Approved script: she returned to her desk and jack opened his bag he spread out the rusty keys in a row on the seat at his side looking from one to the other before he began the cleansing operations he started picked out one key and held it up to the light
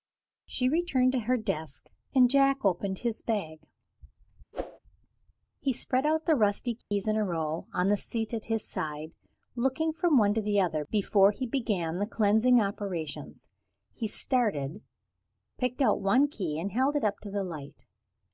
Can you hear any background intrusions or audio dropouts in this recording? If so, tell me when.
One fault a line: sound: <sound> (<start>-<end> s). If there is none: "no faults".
sound: whoosh (4.5-4.8 s)
sound: dropout (6.8-6.9 s)